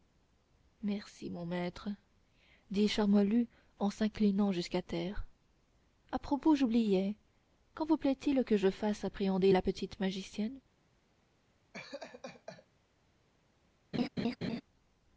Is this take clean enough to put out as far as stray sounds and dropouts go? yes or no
no